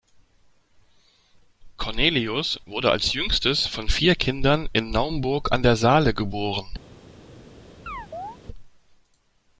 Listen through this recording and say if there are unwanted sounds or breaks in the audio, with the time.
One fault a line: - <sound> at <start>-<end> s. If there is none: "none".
- chirp at 7.9-8.4 s